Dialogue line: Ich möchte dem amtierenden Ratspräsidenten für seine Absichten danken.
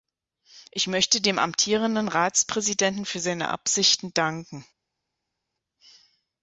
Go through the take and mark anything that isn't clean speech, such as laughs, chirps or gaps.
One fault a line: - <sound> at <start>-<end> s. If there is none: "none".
none